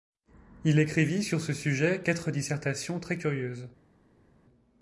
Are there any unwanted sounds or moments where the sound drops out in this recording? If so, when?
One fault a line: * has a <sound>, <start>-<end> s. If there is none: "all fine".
all fine